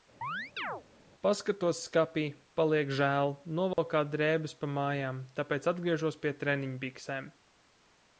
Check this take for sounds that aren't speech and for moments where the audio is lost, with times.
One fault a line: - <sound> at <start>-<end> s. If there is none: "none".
- chirp at 0.2-0.8 s
- dropout at 3.7-3.8 s